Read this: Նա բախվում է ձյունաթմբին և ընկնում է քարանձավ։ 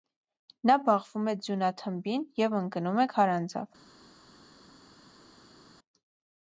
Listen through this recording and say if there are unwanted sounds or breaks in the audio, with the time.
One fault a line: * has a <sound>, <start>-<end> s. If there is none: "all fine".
all fine